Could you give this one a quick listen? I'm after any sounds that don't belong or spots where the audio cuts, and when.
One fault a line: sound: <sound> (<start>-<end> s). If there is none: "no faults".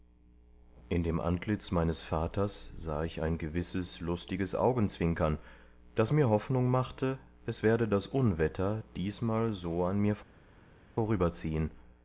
no faults